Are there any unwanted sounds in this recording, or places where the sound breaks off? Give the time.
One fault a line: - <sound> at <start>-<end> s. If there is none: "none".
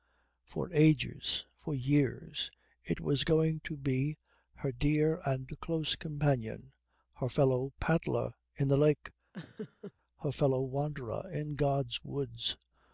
- laugh at 9.3-9.9 s